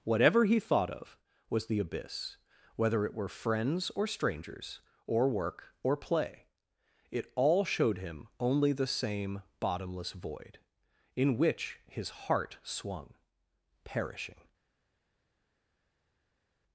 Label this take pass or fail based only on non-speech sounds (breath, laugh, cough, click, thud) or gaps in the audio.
pass